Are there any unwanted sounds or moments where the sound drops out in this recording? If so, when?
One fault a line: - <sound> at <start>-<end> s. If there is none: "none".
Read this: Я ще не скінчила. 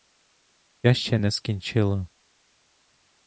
none